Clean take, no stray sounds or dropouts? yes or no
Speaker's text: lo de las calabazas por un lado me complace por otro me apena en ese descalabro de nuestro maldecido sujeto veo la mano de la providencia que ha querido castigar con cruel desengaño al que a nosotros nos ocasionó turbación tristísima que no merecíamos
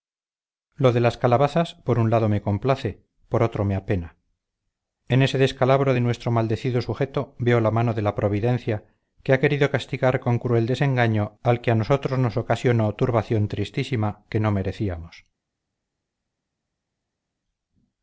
yes